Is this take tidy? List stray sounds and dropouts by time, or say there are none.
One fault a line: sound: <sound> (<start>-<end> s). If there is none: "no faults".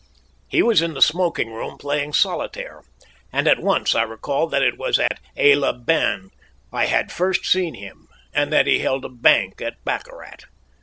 sound: dropout (5.1-5.1 s)